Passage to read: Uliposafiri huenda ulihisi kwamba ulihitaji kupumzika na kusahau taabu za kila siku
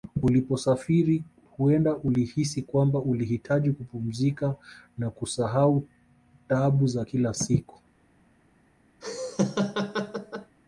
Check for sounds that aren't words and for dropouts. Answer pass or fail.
fail